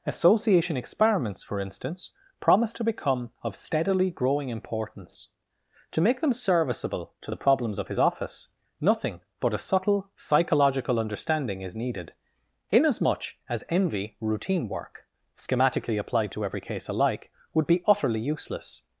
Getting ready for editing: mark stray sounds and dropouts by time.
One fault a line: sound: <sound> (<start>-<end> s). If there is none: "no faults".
no faults